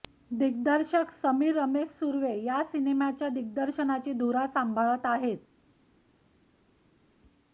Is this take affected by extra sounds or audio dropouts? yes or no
no